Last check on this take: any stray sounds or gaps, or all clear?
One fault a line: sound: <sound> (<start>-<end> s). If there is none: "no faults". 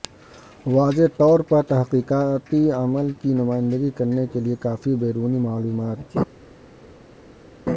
no faults